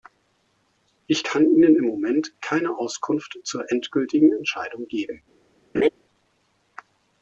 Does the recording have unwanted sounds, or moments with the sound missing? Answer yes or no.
yes